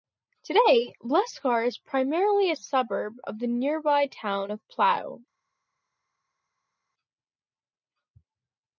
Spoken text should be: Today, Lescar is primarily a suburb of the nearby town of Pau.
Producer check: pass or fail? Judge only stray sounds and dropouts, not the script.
pass